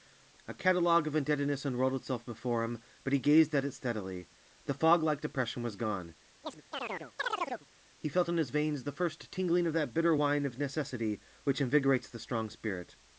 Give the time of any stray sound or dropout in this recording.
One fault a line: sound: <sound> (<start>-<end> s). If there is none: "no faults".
sound: chirp (6.4-7.7 s)